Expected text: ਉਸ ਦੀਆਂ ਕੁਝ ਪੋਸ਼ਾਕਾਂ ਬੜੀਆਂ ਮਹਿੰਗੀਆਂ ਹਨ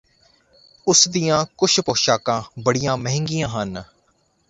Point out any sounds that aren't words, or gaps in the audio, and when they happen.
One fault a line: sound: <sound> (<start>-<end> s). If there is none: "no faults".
no faults